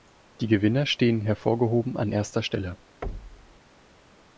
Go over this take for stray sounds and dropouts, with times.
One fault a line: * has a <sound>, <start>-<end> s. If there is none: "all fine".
* has a thud, 3.0-3.6 s